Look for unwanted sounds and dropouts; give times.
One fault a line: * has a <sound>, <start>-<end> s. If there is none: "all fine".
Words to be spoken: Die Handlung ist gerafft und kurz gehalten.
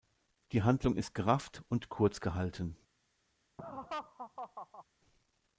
* has a laugh, 3.6-4.8 s